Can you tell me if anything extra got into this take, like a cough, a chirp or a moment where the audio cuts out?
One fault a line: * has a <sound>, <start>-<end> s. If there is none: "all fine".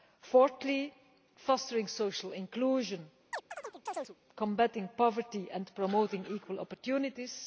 * has a chirp, 3.3-4.2 s